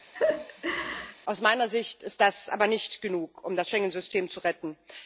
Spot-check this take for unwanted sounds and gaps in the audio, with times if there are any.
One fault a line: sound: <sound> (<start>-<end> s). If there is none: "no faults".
sound: laugh (0.1-1.2 s)